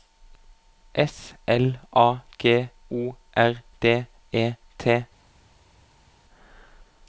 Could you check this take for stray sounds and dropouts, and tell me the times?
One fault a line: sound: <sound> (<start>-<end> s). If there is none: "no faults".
no faults